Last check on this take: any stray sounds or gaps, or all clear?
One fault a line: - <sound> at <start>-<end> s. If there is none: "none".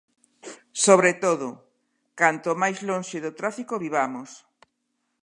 none